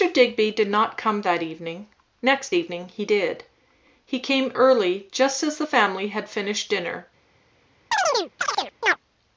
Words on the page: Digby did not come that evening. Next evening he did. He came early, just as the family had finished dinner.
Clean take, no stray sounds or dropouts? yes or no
no